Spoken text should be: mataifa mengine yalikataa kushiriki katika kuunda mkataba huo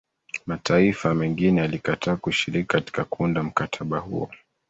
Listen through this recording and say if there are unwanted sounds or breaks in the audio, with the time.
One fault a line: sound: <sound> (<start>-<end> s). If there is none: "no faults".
no faults